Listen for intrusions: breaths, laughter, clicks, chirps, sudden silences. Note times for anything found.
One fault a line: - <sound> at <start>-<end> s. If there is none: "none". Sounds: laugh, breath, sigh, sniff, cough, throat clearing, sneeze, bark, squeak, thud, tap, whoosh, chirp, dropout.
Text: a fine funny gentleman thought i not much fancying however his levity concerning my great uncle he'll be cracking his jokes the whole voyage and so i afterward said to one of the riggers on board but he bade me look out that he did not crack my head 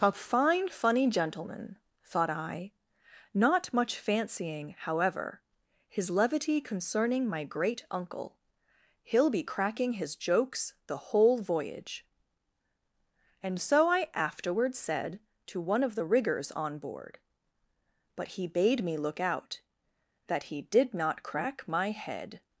none